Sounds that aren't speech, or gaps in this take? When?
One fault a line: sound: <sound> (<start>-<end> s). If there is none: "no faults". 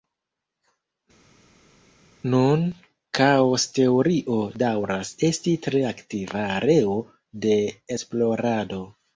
no faults